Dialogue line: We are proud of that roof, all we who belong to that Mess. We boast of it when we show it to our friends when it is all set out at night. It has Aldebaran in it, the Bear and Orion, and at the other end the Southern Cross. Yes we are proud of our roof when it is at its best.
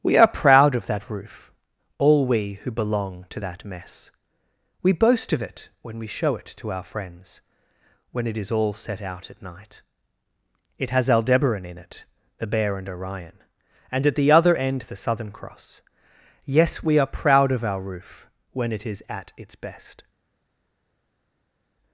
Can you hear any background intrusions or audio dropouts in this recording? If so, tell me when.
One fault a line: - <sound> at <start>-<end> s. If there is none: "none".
none